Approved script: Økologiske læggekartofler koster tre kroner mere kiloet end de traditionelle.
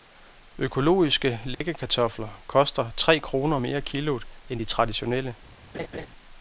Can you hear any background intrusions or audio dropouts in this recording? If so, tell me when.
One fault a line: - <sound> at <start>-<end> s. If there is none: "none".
- dropout at 1.5-1.6 s
- laugh at 5.7-6.1 s